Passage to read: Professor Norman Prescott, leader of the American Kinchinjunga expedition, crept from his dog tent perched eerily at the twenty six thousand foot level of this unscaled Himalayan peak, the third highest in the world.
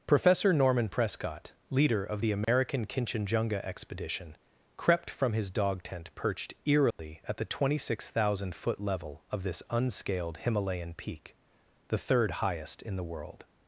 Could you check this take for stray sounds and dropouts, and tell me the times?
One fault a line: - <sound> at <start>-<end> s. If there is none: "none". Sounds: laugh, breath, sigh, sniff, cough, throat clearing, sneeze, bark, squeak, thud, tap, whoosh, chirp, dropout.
- dropout at 2.4-2.5 s
- dropout at 6.9-7.0 s